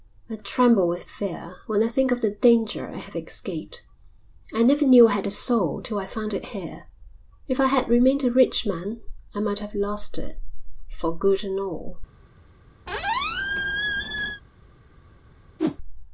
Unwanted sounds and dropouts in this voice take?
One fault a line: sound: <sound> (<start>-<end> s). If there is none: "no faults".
sound: squeak (12.9-14.4 s)
sound: whoosh (15.6-15.8 s)